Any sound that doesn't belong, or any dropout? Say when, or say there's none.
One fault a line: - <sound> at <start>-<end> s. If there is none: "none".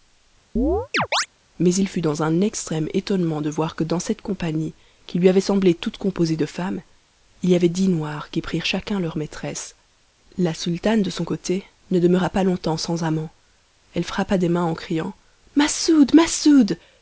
- chirp at 0.6-1.3 s